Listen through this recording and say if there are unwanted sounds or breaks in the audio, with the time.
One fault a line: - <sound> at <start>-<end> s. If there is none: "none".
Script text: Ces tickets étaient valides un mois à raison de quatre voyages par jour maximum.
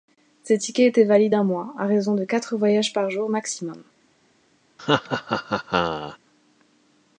- laugh at 4.8-6.2 s